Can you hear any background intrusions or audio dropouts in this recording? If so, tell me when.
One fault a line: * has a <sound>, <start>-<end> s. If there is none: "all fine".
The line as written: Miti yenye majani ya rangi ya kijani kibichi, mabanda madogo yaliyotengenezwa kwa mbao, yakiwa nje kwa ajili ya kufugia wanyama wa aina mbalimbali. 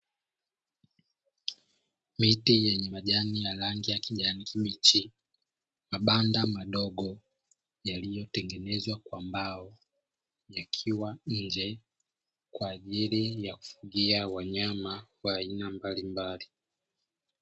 all fine